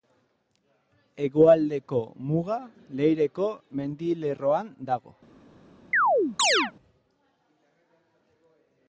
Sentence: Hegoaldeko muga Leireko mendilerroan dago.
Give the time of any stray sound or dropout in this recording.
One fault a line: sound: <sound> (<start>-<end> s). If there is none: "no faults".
sound: chirp (5.9-6.7 s)